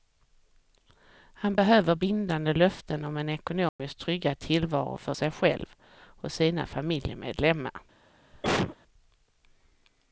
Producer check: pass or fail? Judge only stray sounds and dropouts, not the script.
fail